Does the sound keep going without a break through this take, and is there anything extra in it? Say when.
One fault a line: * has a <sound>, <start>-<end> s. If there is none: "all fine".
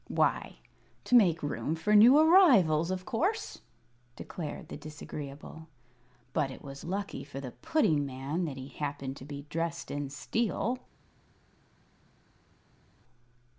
all fine